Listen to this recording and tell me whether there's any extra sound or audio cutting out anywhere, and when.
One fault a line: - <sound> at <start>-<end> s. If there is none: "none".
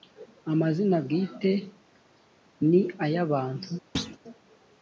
- thud at 3.9-4.2 s